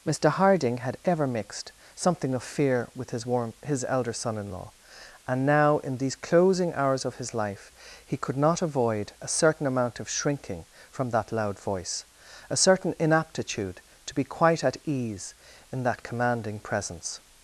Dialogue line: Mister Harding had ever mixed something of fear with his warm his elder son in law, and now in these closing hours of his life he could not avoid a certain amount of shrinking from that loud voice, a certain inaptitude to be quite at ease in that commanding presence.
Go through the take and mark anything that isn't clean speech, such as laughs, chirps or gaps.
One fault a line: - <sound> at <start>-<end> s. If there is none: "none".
none